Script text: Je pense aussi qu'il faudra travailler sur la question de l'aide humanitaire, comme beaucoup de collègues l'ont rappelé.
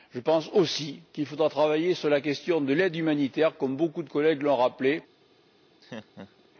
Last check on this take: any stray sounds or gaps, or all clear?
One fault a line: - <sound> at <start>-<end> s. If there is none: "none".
- laugh at 5.8-6.5 s